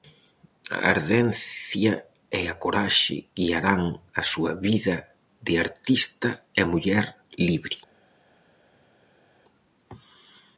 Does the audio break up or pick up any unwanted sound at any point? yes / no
no